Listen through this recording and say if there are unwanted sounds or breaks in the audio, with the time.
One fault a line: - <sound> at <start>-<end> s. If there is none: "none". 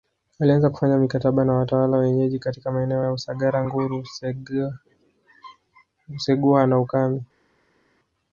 none